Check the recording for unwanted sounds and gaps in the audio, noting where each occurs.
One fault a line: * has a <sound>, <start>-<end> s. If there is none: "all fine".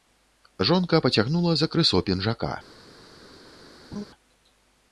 * has a laugh, 3.9-4.0 s